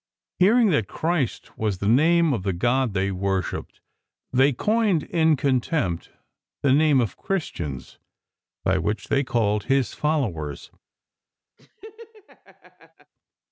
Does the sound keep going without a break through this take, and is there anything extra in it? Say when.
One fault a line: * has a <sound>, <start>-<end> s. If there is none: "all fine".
* has a laugh, 11.6-13.1 s